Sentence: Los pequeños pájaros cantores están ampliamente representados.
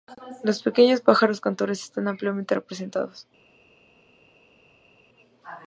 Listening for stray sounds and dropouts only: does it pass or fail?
pass